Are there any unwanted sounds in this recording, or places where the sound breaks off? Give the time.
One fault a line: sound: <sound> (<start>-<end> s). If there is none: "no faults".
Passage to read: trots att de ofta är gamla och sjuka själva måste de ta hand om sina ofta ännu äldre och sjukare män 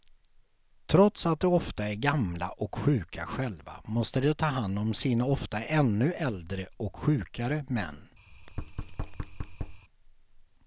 sound: thud (8.3-9.8 s)